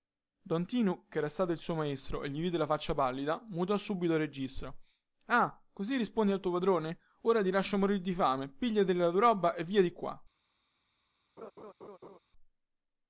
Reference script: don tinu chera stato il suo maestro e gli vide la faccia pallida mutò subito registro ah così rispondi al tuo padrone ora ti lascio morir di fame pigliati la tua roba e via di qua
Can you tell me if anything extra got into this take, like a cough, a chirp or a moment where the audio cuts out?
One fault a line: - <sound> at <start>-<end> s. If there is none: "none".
- laugh at 11.4-12.2 s